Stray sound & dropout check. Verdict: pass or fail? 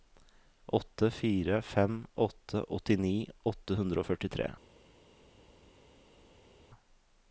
pass